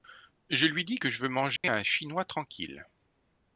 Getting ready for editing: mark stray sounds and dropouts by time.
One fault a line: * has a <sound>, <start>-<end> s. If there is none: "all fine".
* has a dropout, 1.6-1.6 s